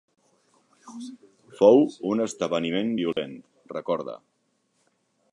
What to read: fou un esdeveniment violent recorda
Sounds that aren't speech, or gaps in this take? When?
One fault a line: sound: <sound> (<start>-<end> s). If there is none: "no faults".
sound: dropout (3.1-3.2 s)